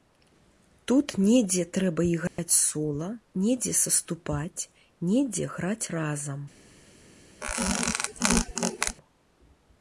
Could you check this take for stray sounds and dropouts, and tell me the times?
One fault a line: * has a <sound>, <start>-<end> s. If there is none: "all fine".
* has a dropout, 2.3-2.4 s
* has a squeak, 7.4-9.0 s